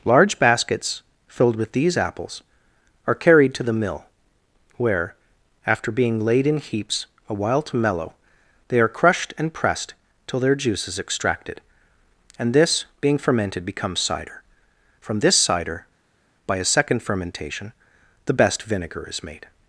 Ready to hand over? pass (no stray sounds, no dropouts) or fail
pass